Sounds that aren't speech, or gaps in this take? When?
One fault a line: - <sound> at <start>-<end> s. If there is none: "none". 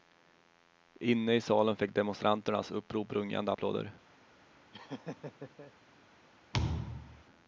- laugh at 4.7-5.7 s
- thud at 6.5-7.2 s